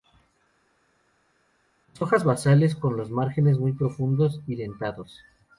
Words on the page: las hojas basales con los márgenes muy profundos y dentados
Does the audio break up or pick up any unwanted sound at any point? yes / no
no